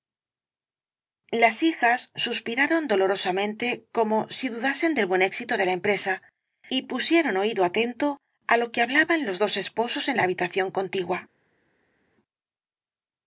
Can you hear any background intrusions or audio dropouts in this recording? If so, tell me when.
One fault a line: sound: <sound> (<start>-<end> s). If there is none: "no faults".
no faults